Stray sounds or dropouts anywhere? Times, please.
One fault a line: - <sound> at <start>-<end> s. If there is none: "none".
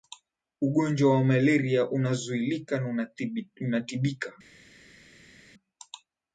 none